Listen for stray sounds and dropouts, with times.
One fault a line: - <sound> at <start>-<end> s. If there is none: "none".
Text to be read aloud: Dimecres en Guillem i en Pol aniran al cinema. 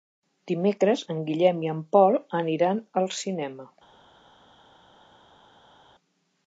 none